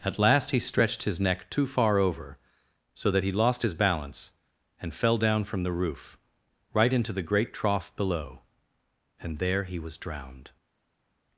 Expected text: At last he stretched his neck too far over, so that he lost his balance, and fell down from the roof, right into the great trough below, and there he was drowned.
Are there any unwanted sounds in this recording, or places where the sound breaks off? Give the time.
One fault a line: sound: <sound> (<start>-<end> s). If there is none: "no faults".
no faults